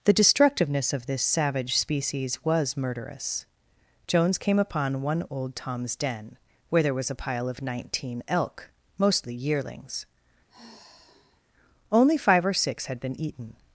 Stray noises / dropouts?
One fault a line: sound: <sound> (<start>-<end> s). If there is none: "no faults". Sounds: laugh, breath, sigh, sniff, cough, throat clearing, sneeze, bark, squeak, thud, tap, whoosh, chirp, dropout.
sound: sigh (10.5-11.4 s)